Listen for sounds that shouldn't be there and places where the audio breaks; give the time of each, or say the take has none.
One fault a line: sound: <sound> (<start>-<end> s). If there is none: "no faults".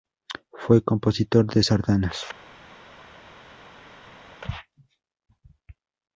no faults